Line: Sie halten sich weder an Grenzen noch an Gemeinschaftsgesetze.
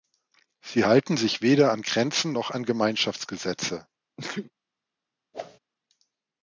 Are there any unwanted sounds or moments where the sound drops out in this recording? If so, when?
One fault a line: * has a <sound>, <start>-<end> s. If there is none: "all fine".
* has a sneeze, 4.2-4.5 s
* has a whoosh, 5.3-5.6 s